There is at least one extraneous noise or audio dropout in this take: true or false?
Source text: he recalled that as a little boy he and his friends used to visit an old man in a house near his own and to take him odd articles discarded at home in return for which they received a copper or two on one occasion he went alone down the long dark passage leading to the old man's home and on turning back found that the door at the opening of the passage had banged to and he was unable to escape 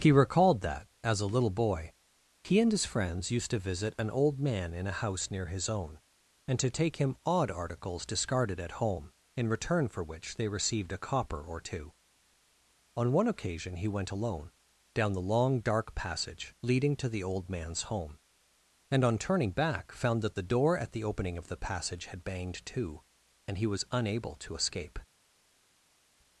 false